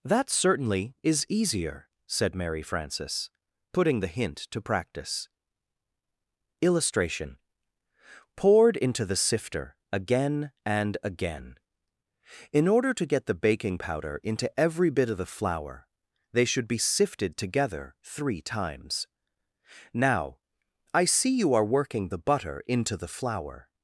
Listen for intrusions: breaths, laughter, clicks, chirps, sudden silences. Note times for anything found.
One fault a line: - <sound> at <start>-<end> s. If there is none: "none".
none